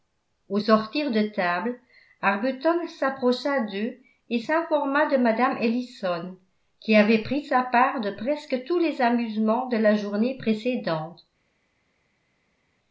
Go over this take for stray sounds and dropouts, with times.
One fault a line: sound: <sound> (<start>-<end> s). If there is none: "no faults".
no faults